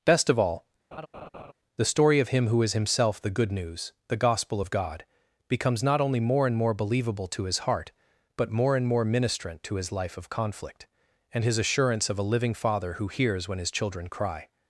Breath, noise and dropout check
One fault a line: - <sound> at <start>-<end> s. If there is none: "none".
- laugh at 0.9-1.5 s